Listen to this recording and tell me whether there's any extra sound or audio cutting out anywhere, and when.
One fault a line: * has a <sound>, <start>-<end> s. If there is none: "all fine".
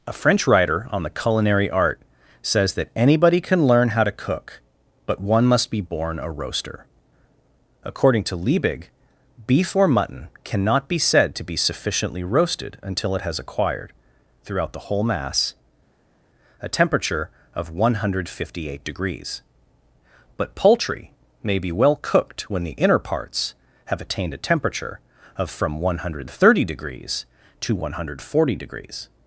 all fine